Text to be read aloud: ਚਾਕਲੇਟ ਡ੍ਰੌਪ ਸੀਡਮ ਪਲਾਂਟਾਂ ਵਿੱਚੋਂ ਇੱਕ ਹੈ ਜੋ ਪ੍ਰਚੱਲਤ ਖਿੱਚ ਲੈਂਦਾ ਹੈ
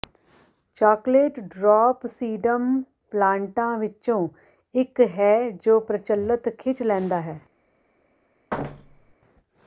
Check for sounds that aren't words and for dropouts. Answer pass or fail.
fail